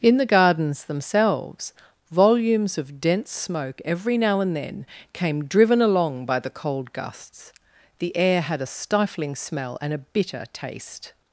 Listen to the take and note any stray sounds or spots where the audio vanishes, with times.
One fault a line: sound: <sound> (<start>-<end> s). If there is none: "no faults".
no faults